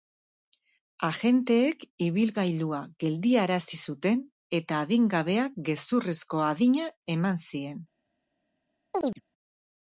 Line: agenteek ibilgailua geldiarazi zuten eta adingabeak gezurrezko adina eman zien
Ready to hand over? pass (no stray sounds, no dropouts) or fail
fail